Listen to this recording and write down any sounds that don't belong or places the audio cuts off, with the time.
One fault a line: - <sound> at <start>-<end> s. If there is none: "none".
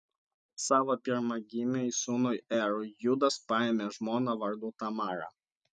none